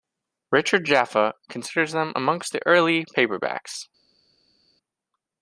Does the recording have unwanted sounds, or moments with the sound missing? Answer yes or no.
no